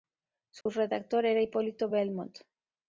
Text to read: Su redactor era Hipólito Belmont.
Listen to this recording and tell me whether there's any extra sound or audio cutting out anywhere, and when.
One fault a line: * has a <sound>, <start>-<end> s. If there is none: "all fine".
* has a dropout, 0.6-0.7 s